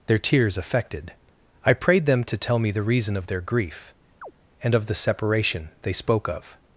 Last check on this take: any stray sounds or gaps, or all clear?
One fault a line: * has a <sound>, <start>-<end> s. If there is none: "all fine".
* has a chirp, 4.2-4.3 s